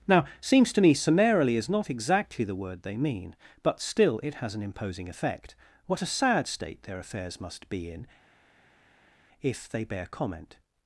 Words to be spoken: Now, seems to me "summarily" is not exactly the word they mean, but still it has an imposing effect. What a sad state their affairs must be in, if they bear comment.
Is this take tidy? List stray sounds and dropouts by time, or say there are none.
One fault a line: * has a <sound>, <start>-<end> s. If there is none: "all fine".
all fine